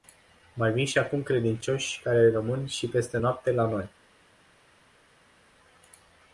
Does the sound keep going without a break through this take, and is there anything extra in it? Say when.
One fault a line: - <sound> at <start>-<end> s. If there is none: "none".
none